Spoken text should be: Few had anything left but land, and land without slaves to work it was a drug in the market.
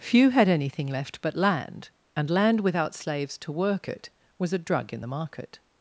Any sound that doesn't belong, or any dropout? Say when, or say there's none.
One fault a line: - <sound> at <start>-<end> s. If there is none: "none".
none